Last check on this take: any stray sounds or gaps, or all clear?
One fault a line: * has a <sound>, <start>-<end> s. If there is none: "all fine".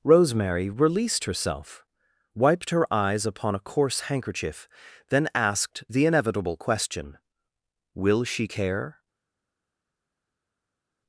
all fine